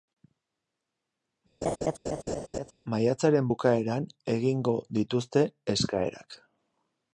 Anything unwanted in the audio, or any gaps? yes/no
yes